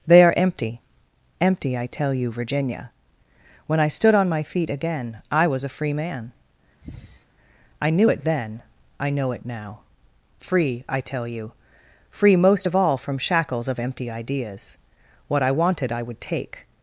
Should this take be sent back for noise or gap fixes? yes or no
yes